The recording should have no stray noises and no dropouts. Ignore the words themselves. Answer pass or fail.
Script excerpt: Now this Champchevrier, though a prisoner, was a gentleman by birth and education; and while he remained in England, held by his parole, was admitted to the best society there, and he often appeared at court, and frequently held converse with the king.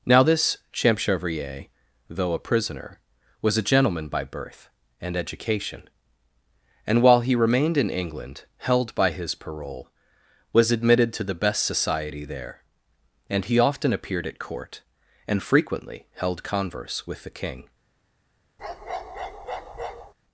fail